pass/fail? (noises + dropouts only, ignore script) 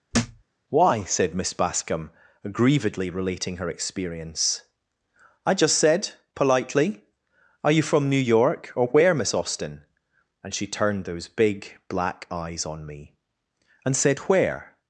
fail